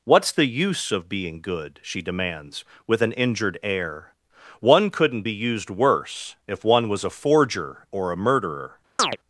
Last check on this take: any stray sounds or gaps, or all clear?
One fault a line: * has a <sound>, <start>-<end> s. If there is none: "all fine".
* has a chirp, 9.0-9.2 s